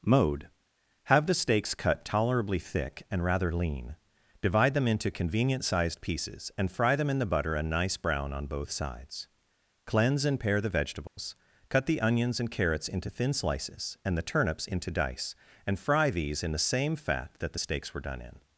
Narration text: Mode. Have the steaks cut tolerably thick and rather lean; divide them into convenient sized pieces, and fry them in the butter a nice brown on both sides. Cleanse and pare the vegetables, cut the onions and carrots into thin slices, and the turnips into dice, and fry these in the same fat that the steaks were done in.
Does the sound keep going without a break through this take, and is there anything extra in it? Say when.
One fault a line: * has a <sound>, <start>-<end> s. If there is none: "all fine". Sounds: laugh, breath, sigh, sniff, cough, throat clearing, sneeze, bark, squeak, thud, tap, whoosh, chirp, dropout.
* has a dropout, 11.1-11.2 s